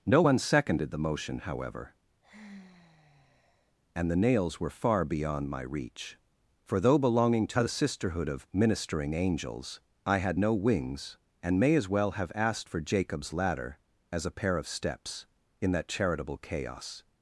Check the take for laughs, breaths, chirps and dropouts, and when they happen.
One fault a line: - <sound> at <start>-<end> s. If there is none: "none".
- sigh at 2.2-3.7 s